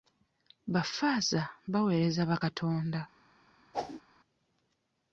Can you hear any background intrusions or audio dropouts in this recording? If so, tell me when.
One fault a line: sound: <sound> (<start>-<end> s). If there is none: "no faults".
sound: whoosh (3.7-4.0 s)